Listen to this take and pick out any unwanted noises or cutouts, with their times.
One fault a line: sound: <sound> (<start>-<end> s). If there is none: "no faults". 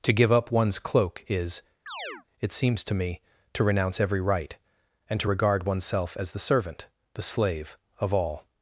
sound: chirp (1.9-2.2 s)